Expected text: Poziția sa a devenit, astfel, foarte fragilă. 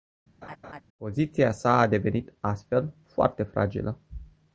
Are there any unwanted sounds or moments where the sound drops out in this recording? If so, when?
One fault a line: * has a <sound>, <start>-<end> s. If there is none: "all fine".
* has a laugh, 0.4-0.8 s